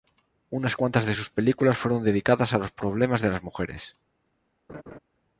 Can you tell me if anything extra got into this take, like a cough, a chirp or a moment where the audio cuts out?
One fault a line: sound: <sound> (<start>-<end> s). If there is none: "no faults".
sound: laugh (4.7-5.0 s)